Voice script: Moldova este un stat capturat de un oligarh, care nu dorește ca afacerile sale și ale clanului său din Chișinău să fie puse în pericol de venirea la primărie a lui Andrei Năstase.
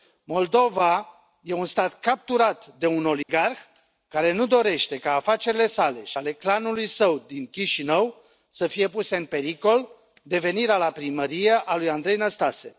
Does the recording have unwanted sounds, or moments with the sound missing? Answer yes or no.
yes